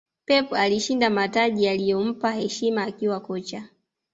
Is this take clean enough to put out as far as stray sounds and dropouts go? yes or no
yes